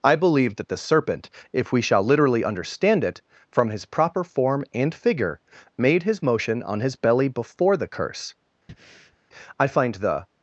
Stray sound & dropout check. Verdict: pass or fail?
fail